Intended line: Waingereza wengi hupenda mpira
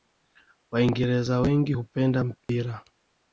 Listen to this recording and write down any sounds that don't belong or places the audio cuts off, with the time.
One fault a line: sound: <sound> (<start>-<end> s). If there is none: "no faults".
sound: dropout (2.4-2.5 s)